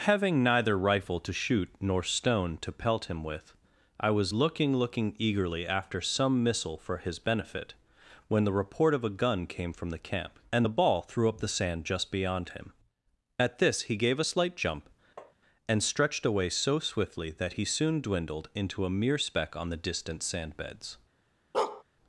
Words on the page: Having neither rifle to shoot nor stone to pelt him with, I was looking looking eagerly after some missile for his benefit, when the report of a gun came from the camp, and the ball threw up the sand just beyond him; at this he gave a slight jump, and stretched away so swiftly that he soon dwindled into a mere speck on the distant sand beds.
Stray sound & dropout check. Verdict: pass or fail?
fail